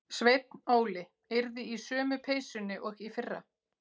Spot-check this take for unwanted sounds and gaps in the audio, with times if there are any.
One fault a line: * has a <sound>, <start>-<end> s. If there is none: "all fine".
all fine